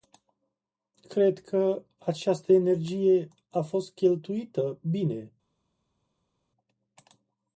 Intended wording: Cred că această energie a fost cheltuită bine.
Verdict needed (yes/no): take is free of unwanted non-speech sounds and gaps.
yes